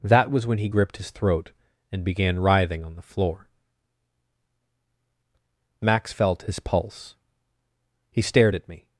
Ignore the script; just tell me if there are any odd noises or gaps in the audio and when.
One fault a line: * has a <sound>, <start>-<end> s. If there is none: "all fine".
all fine